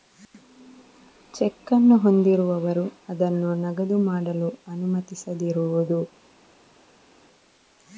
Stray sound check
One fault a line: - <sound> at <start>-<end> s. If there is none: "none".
none